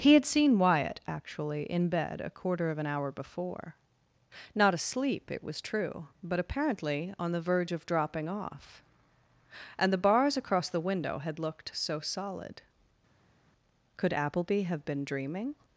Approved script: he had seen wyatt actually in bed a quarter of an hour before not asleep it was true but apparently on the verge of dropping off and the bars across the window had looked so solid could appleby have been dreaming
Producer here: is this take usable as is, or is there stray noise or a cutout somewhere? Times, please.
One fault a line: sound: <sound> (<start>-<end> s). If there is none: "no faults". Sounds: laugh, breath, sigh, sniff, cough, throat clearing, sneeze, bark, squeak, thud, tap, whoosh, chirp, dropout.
no faults